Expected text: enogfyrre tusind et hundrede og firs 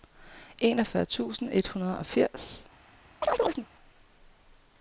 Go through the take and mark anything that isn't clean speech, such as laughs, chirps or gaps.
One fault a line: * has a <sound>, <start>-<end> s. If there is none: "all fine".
* has a chirp, 3.2-3.7 s